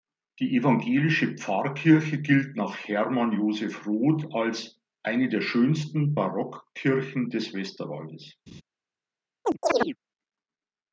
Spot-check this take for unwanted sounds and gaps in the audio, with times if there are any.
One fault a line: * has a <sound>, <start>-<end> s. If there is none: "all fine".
* has a laugh, 8.5-8.6 s
* has a chirp, 9.4-10.0 s